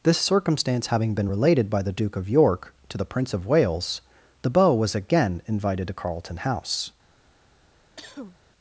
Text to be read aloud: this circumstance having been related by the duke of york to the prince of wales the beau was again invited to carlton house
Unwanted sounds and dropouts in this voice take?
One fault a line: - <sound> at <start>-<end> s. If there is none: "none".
- cough at 8.0-8.4 s